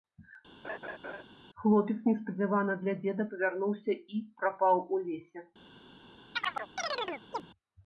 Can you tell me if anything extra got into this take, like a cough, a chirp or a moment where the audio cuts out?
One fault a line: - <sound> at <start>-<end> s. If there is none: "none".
- laugh at 0.6-1.2 s
- chirp at 6.3-7.5 s